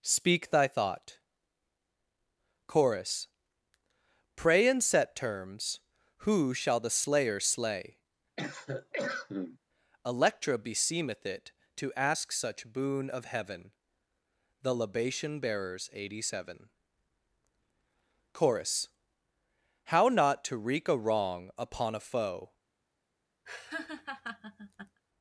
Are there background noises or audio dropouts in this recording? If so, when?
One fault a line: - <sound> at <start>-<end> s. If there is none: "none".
- cough at 8.4-9.6 s
- laugh at 23.5-25.0 s